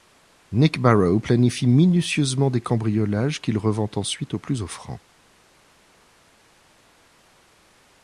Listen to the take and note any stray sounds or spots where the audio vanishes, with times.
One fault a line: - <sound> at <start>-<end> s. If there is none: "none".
none